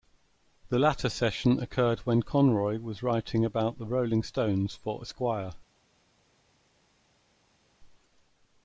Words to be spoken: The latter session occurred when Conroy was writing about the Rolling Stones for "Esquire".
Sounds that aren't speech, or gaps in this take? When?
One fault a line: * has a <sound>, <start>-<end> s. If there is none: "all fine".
all fine